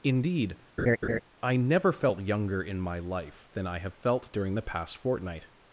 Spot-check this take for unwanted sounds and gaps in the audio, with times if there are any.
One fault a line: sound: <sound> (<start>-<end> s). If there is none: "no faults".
sound: laugh (0.8-1.2 s)